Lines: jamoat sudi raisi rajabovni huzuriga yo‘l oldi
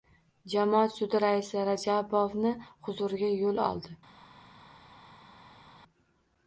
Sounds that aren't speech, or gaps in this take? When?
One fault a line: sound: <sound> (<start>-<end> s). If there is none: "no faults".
no faults